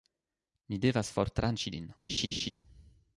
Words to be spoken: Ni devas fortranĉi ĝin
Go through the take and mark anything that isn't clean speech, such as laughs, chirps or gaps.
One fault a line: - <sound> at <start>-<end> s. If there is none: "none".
- laugh at 2.1-2.5 s